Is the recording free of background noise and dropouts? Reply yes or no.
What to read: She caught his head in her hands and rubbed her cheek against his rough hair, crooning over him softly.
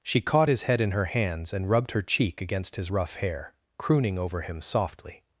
yes